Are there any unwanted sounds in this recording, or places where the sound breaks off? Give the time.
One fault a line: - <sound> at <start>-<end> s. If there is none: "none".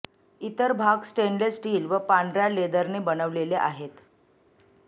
none